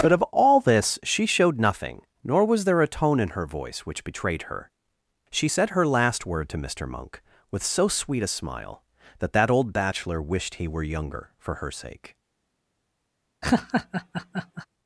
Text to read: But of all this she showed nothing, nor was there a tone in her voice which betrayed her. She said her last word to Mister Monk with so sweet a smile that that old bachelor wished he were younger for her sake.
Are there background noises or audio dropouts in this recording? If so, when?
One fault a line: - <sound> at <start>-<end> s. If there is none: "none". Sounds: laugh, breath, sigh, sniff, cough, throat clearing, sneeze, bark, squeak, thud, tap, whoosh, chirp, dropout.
- laugh at 13.4-14.7 s